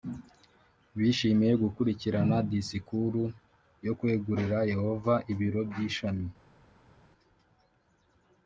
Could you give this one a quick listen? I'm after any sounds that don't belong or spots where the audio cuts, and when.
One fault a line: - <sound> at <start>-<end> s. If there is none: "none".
none